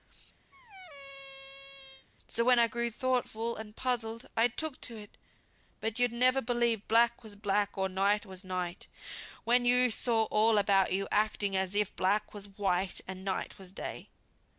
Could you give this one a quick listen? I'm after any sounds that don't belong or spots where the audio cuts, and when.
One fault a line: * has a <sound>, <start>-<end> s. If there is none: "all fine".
* has a squeak, 0.5-2.1 s